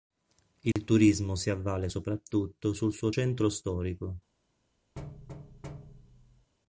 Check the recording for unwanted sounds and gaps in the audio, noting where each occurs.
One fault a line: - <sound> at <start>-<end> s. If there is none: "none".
- dropout at 0.7-0.8 s
- thud at 5.0-6.5 s